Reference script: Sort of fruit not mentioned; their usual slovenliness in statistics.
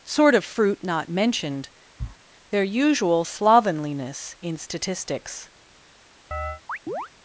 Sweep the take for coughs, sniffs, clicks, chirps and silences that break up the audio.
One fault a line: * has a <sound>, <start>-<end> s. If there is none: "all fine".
* has a sniff, 2.0-2.2 s
* has a chirp, 6.3-7.1 s